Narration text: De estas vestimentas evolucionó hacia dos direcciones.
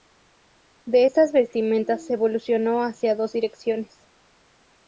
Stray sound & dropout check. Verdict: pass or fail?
pass